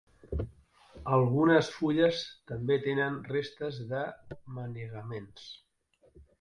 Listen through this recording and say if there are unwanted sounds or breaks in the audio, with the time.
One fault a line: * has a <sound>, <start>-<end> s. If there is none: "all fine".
all fine